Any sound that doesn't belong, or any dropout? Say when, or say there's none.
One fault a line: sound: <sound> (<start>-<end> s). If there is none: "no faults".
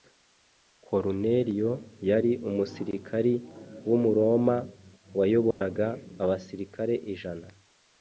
sound: dropout (5.5-5.6 s)